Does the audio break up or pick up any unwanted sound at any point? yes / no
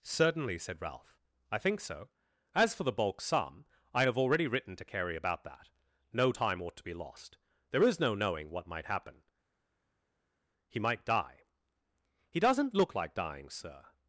no